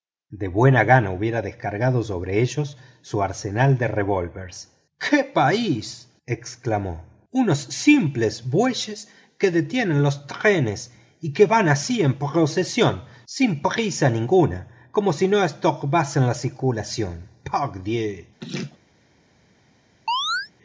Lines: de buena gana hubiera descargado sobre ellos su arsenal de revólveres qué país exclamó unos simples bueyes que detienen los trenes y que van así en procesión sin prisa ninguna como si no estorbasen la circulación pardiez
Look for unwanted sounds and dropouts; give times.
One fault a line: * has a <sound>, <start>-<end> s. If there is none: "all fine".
* has a laugh, 18.4-18.8 s
* has a chirp, 20.1-20.5 s